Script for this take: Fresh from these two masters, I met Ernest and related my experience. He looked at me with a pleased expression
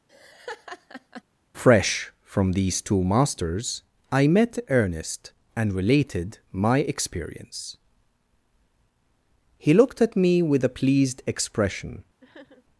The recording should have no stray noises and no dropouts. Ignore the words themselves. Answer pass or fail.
fail